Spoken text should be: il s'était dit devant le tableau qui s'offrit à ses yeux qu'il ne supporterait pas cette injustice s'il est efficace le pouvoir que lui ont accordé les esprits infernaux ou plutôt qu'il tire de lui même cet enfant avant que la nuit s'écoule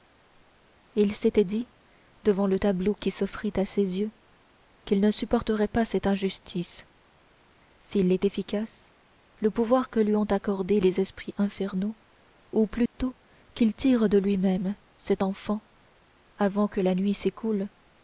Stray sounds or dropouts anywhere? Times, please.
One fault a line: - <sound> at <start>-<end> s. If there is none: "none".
- dropout at 12.9-12.9 s